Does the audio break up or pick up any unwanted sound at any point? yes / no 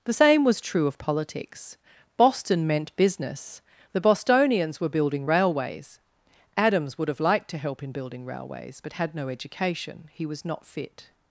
no